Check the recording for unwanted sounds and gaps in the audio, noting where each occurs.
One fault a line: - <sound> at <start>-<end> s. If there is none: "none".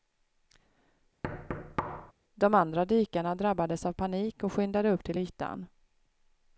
- thud at 1.2-2.1 s